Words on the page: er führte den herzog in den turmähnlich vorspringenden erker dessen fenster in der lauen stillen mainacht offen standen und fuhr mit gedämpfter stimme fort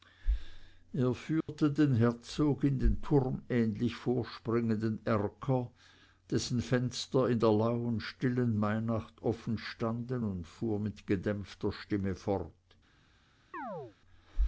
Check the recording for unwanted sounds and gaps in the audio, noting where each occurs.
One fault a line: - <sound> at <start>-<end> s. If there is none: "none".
- dropout at 1.4-1.5 s
- chirp at 13.5-14.0 s